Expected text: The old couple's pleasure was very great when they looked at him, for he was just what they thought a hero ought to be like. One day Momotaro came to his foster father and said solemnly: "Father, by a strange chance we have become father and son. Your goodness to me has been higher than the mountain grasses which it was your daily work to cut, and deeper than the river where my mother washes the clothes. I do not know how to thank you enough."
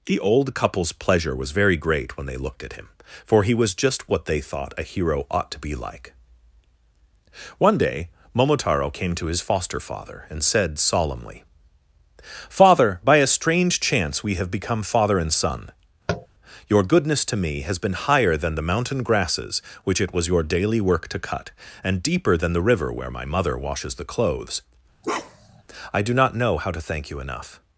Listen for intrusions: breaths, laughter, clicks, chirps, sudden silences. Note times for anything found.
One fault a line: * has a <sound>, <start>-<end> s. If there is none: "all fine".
* has a tap, 16.1-16.3 s
* has a bark, 25.0-25.6 s